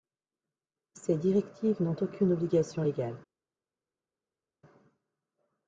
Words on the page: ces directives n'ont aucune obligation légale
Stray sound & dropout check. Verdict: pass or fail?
pass